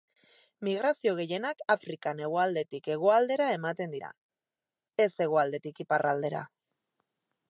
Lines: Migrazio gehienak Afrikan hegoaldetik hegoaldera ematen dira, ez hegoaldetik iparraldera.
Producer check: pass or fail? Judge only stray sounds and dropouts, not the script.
pass